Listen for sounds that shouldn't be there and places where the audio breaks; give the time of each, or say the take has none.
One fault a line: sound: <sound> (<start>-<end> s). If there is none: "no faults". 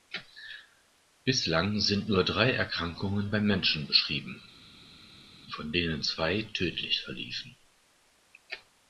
no faults